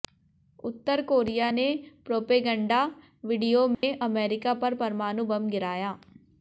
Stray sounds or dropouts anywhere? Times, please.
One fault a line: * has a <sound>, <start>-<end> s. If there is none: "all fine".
* has a dropout, 3.7-3.8 s